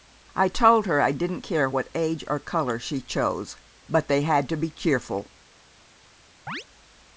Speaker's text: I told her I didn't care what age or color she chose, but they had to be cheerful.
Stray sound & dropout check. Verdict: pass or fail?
fail